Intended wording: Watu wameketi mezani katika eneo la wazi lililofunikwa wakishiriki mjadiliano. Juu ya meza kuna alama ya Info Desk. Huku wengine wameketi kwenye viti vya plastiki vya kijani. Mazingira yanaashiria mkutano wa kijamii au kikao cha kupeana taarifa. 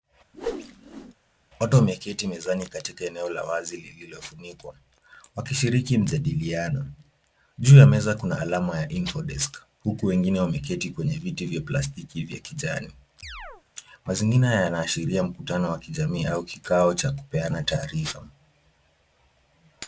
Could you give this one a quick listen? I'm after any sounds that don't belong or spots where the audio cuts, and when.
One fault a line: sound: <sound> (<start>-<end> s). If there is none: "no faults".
sound: whoosh (0.3-1.1 s)
sound: chirp (13.2-13.6 s)